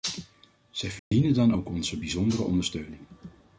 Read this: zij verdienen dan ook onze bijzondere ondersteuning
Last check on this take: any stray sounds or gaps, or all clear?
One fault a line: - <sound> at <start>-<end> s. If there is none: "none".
- dropout at 1.0-1.1 s